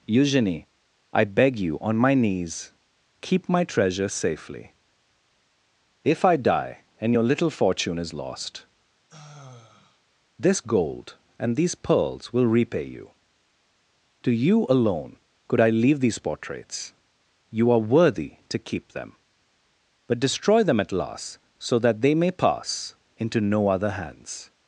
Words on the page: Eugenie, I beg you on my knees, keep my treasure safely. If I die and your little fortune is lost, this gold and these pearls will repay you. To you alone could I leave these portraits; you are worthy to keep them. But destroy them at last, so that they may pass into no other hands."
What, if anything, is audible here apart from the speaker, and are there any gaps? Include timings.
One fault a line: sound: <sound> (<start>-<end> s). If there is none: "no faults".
sound: sigh (9.1-10.0 s)